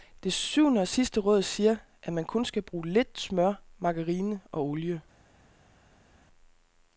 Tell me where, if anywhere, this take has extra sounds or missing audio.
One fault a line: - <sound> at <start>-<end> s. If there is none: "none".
none